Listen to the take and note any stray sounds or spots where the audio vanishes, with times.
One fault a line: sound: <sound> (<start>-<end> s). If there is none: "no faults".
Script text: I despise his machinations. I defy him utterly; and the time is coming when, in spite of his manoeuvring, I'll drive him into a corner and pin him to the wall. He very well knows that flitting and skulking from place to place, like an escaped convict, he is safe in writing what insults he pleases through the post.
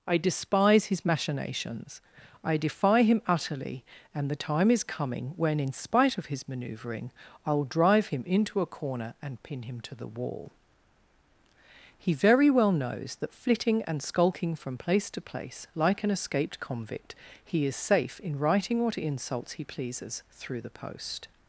no faults